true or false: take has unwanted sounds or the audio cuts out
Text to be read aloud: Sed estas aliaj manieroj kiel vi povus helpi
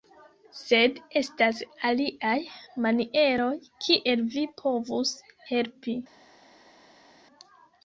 false